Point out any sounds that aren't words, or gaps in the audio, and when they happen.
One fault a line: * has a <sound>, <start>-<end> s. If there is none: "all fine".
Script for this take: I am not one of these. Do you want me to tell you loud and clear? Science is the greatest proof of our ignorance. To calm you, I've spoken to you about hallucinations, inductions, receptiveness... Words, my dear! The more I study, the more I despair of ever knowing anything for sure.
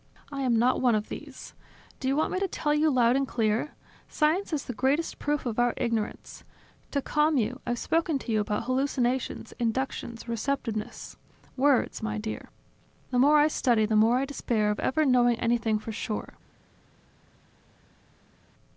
all fine